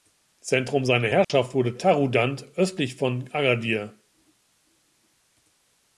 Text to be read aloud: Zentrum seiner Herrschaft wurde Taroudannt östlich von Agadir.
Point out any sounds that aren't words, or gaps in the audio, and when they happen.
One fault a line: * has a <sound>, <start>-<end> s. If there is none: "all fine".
* has a dropout, 1.2-1.3 s